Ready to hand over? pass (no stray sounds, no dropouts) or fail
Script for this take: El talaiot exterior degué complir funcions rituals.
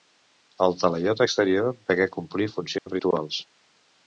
fail